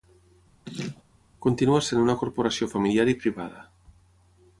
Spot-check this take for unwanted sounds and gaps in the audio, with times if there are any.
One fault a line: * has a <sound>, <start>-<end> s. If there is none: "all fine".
* has a laugh, 0.7-1.0 s